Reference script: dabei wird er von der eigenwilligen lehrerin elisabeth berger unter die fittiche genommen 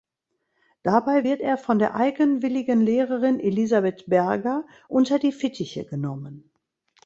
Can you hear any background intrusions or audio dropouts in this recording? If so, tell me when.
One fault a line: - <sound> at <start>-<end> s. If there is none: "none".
none